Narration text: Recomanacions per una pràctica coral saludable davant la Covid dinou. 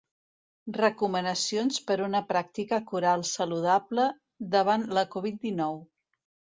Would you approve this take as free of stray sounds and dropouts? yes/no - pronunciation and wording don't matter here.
yes